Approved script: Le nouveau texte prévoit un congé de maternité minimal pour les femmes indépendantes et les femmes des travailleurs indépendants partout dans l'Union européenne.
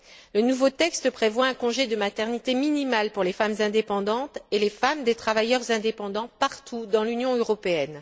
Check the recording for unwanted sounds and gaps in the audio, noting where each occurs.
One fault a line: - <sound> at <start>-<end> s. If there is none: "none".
none